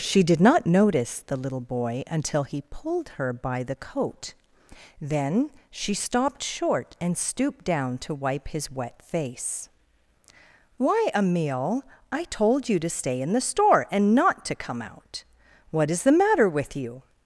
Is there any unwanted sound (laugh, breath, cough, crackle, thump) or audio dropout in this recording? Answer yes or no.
no